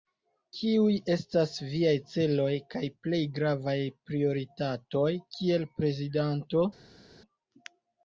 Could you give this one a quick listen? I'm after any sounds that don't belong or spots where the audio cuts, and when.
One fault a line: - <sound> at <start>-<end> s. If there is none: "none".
none